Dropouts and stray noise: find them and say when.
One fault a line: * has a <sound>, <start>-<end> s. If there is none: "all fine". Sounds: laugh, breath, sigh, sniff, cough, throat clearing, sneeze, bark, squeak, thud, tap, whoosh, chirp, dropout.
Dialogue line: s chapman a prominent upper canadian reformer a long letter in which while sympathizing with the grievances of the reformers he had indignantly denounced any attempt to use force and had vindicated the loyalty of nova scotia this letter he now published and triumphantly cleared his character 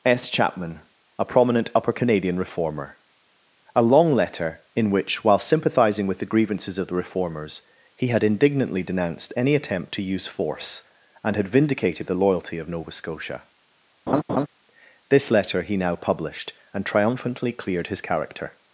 * has a laugh, 14.1-14.5 s